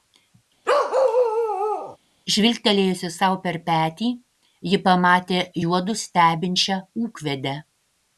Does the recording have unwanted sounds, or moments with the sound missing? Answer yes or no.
yes